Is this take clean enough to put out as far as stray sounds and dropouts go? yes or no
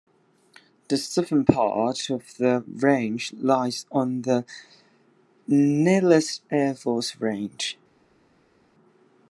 yes